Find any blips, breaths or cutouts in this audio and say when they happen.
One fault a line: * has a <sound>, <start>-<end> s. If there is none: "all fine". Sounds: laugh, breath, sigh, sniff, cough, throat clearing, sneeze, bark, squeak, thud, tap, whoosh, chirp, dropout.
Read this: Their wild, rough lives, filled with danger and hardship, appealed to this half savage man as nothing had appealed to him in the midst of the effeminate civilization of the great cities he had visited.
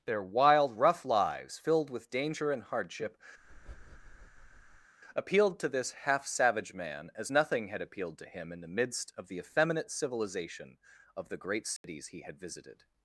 * has a breath, 3.4-4.9 s
* has a dropout, 11.8-11.8 s